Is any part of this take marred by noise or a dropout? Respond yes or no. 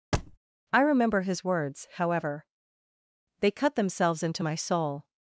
yes